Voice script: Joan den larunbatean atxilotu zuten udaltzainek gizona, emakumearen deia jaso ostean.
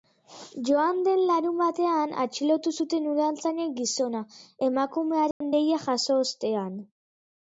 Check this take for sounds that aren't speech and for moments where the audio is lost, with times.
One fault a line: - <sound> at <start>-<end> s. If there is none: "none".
- dropout at 5.3-5.4 s